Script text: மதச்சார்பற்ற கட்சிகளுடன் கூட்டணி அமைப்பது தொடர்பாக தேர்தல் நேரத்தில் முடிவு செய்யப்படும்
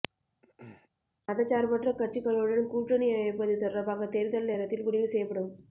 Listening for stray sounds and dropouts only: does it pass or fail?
fail